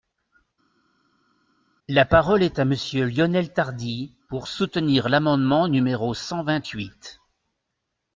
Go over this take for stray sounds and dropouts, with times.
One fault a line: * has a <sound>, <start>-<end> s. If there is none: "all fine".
all fine